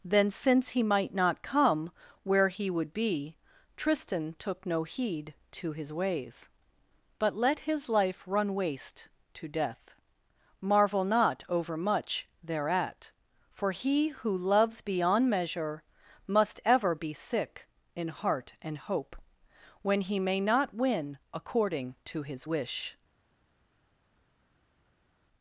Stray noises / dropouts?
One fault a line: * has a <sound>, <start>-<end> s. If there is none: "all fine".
all fine